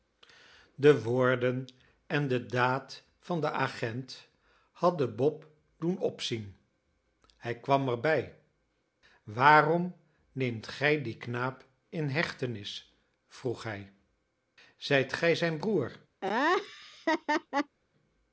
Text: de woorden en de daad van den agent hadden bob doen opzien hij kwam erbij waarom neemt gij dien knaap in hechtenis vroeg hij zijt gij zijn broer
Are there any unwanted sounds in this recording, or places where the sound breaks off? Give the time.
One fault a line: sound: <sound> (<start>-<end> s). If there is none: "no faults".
sound: laugh (16.2-17.8 s)